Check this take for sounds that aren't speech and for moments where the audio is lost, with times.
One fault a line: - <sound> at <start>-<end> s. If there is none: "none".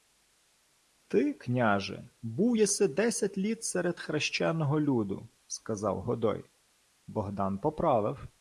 none